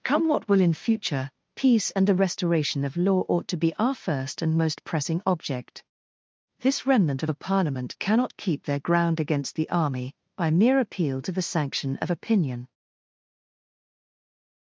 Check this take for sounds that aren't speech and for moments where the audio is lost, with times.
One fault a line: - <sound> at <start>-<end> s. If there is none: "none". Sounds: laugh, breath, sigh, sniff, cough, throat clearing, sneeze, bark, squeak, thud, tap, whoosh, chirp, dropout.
none